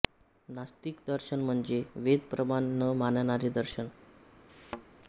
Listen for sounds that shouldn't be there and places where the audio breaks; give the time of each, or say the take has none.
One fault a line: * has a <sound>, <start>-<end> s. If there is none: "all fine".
* has a thud, 4.5-4.8 s